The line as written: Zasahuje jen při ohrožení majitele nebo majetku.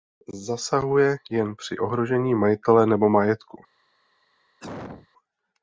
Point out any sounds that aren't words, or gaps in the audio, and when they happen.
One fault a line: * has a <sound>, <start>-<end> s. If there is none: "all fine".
* has a cough, 4.6-5.1 s